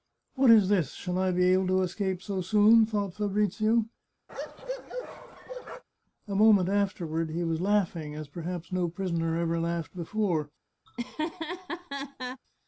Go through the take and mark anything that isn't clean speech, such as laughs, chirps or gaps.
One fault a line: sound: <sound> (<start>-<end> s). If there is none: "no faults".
sound: bark (4.3-5.8 s)
sound: laugh (10.9-12.4 s)